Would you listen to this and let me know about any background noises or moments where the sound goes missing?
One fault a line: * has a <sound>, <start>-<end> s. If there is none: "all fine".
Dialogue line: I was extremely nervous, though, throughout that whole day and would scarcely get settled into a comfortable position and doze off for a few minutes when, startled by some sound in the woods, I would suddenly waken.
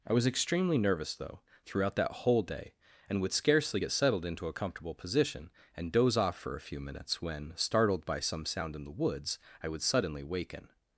all fine